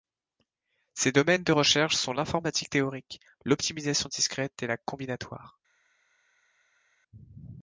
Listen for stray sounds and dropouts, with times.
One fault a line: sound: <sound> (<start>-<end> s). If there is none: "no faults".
no faults